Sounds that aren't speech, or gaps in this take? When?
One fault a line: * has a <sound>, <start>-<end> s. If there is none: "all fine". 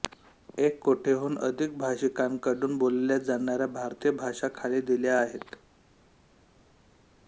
all fine